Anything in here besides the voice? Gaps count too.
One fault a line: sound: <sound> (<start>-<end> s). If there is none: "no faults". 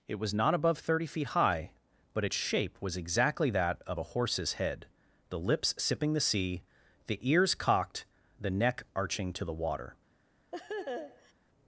sound: laugh (10.5-11.3 s)